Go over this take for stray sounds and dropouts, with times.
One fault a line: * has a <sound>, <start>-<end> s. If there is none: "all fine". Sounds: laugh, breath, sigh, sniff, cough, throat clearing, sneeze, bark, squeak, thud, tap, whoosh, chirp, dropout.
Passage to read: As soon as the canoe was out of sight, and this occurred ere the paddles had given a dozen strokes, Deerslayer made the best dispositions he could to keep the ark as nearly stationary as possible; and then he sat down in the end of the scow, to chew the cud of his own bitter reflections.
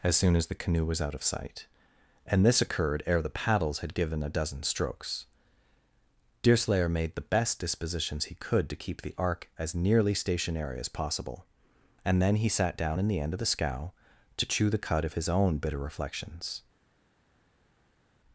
all fine